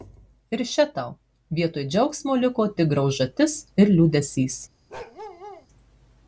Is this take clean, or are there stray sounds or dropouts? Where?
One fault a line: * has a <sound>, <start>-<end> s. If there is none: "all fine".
* has a bark, 4.9-5.7 s